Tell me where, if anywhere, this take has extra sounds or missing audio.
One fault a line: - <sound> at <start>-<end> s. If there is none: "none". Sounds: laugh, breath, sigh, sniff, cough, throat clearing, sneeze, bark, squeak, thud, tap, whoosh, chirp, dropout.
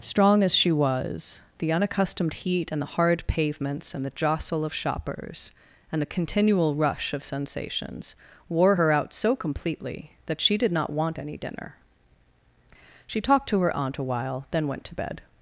none